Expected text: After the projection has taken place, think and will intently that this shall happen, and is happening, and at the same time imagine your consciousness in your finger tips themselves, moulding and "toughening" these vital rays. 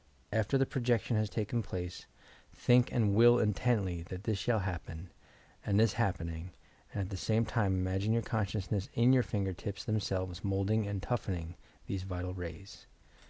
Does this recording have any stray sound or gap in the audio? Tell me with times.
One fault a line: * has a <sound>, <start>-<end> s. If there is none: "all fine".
all fine